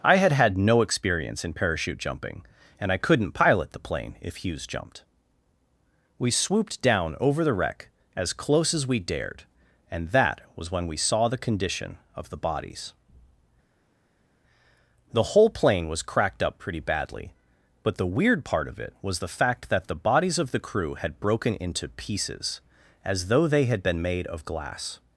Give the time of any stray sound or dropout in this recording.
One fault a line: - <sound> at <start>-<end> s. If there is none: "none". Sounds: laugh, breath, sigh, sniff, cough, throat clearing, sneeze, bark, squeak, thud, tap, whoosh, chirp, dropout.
none